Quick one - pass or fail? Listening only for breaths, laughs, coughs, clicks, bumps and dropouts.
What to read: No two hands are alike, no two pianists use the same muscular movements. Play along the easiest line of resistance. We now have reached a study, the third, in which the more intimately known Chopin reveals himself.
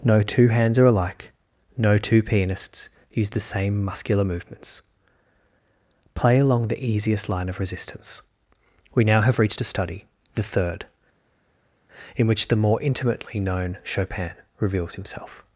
pass